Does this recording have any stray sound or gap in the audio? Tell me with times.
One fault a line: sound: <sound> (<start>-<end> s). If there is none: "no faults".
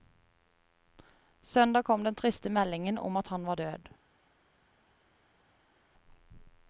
no faults